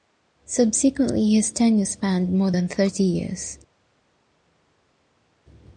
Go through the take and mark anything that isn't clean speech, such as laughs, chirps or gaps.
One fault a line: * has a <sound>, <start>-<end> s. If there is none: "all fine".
all fine